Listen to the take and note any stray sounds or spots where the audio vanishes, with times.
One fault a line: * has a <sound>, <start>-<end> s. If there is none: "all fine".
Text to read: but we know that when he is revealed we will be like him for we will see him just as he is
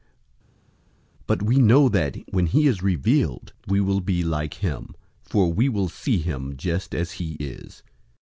all fine